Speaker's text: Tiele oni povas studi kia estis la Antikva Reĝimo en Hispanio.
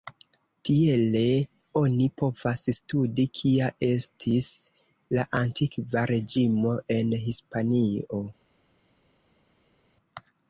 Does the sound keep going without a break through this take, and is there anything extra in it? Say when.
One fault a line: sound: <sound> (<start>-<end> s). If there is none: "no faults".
no faults